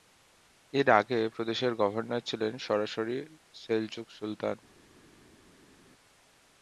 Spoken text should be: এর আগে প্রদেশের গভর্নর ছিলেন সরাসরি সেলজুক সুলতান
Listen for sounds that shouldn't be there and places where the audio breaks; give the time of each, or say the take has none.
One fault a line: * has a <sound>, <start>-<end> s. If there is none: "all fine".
all fine